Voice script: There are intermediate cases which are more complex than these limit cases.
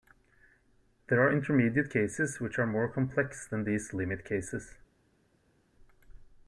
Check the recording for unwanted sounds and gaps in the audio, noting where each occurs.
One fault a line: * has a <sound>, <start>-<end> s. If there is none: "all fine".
all fine